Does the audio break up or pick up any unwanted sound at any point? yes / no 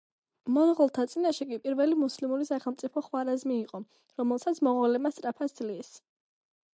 no